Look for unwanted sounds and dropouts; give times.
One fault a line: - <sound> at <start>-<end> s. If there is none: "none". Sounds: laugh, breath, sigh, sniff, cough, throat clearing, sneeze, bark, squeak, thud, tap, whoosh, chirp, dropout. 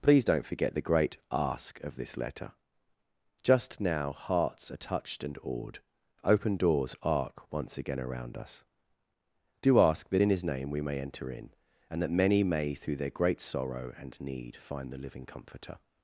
none